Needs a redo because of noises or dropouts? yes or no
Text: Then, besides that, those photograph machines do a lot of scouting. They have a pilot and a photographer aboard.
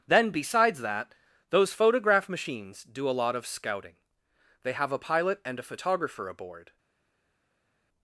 no